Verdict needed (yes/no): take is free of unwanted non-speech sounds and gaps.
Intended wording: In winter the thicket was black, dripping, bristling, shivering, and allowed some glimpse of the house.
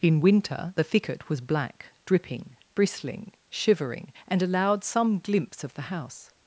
yes